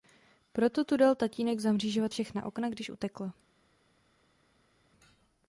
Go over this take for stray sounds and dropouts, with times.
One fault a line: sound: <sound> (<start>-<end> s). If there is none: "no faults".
no faults